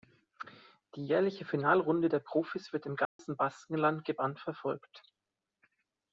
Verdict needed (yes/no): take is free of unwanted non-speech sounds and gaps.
no